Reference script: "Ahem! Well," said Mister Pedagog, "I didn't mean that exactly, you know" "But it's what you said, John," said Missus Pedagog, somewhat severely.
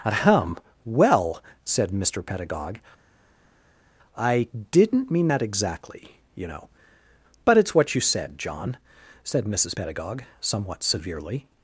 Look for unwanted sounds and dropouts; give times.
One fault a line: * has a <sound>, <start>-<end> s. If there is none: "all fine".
all fine